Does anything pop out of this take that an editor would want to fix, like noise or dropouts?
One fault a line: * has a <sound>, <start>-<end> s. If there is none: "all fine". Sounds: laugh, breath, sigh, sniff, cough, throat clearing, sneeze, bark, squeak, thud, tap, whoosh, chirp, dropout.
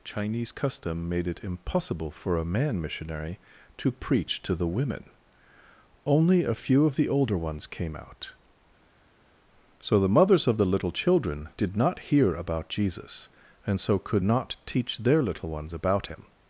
all fine